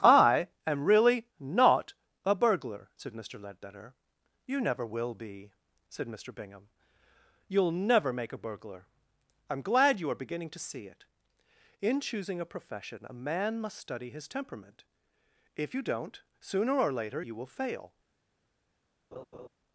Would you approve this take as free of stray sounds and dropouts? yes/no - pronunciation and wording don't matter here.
no